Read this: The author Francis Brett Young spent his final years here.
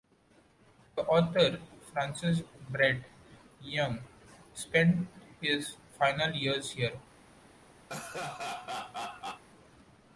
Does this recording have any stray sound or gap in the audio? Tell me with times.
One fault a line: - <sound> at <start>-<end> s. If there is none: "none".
- laugh at 7.9-9.4 s